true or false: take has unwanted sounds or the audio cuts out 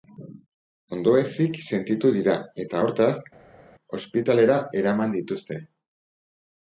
false